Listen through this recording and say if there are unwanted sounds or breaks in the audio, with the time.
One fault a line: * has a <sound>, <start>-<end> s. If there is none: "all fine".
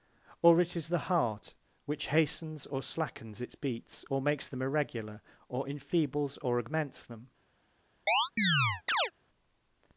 * has a chirp, 8.1-9.1 s